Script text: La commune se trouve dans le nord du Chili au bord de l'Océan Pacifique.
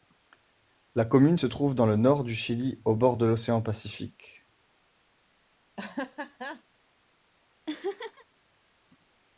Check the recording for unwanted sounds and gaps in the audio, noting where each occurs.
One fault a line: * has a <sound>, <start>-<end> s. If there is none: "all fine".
* has a laugh, 5.8-6.6 s
* has a laugh, 7.7-8.3 s